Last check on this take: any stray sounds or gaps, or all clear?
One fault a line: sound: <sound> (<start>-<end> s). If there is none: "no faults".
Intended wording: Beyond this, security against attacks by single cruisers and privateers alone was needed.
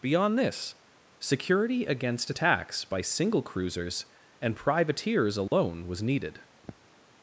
sound: dropout (5.5-5.5 s)
sound: throat clearing (6.6-6.9 s)